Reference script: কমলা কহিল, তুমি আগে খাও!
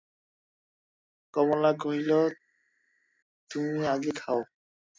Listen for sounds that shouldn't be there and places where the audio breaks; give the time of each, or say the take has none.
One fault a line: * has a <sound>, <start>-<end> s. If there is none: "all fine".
all fine